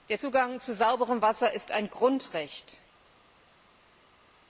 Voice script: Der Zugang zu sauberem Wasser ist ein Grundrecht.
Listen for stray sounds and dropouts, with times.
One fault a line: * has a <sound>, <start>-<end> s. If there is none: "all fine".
all fine